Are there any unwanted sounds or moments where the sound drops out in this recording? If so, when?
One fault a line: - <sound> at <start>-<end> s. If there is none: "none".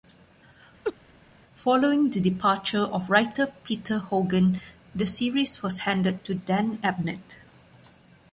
- laugh at 0.8-1.0 s